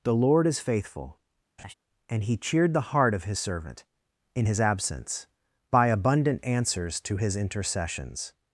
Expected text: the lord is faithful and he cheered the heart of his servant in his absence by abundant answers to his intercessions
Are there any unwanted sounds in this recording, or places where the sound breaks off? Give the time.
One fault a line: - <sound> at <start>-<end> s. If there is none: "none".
- laugh at 1.6-1.7 s